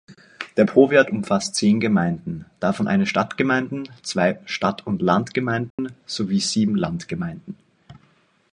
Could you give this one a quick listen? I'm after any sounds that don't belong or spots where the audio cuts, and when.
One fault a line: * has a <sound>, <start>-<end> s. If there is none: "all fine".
* has a dropout, 5.7-5.8 s